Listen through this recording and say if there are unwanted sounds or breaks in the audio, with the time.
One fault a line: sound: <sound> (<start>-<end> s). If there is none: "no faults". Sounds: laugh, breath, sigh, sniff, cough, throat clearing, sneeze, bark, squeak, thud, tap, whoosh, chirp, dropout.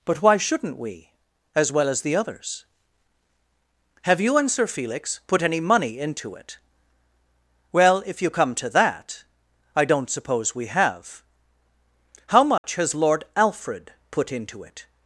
sound: dropout (12.6-12.6 s)